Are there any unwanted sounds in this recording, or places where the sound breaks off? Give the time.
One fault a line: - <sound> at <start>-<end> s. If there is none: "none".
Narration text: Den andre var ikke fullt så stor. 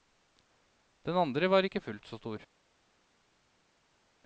none